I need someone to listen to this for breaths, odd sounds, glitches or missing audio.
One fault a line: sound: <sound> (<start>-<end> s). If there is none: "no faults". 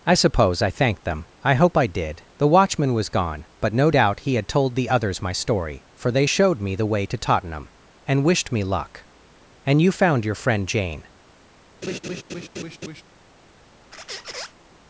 sound: laugh (11.8-13.0 s)
sound: squeak (13.9-14.5 s)